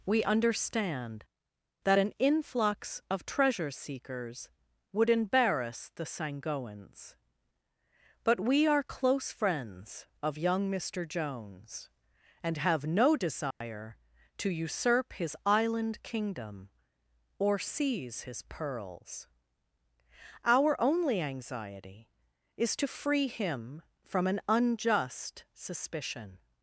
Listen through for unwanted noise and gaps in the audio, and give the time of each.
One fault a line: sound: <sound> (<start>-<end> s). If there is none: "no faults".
sound: dropout (13.5-13.6 s)